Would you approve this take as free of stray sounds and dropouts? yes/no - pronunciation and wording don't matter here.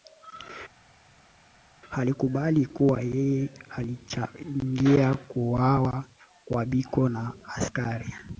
yes